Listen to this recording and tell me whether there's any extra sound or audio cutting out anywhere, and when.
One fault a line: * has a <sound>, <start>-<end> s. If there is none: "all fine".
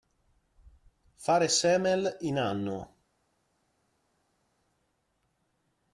all fine